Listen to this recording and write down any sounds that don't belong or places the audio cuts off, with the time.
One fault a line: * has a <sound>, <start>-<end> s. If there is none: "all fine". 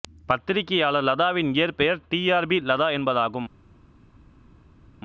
all fine